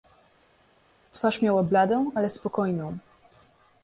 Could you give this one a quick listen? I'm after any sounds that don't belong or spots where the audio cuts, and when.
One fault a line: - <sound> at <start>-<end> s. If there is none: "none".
none